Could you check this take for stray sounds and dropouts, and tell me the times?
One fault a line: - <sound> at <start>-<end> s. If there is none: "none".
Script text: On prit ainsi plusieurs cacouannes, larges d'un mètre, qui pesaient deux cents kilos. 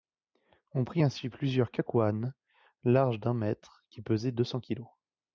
none